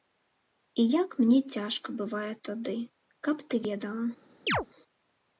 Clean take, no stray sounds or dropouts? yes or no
no